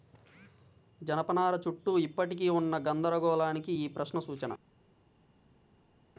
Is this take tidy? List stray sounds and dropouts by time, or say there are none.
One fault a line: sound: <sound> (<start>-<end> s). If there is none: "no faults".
no faults